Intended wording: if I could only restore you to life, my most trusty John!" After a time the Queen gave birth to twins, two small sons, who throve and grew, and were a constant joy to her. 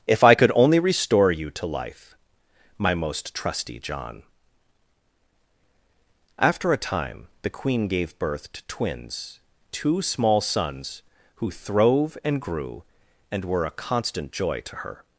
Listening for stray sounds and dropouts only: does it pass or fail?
pass